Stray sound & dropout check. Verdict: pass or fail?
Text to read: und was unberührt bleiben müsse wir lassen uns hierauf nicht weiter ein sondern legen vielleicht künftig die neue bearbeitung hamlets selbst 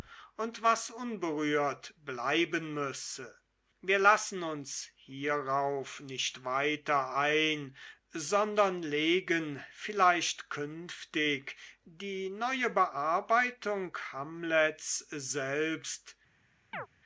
fail